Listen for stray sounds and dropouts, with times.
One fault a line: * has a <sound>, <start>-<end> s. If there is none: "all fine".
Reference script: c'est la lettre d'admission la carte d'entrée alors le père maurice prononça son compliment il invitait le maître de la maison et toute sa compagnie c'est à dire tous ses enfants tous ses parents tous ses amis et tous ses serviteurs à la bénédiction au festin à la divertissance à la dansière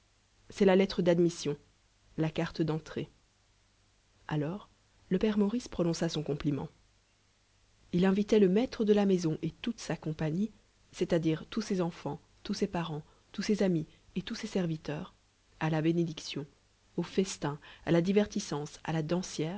all fine